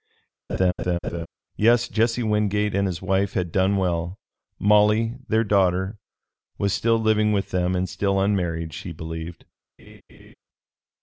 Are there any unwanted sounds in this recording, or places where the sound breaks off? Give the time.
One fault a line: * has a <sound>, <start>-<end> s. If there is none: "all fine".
* has a laugh, 0.5-1.3 s
* has a laugh, 9.8-10.3 s